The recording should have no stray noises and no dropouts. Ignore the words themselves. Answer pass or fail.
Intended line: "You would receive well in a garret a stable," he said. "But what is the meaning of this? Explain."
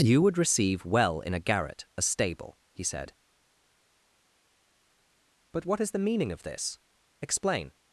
pass